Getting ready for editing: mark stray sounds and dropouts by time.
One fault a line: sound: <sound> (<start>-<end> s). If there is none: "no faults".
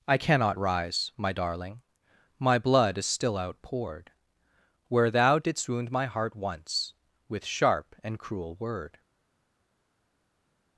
no faults